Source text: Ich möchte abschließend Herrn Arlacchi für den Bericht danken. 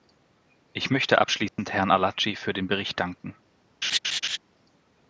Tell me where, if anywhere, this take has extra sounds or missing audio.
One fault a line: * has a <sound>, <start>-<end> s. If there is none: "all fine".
* has a dropout, 1.5-1.6 s
* has a laugh, 3.8-4.4 s